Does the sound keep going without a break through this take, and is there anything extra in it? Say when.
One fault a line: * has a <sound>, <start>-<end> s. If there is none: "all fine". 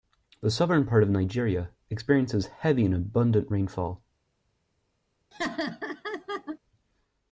* has a laugh, 5.3-6.6 s